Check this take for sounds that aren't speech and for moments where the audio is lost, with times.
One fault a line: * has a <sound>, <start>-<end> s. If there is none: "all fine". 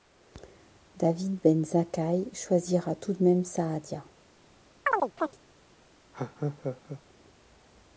* has a chirp, 4.9-5.4 s
* has a laugh, 6.1-7.0 s